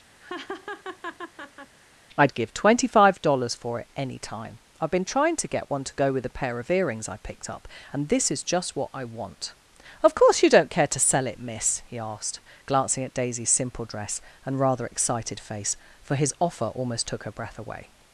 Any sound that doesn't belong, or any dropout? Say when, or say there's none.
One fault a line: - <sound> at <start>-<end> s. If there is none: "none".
- laugh at 0.2-1.7 s